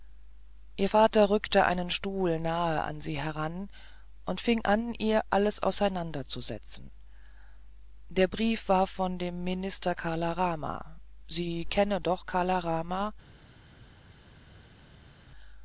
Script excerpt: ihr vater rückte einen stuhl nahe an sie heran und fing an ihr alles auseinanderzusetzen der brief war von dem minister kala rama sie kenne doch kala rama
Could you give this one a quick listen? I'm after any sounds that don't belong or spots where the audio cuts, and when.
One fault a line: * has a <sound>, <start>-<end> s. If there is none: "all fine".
all fine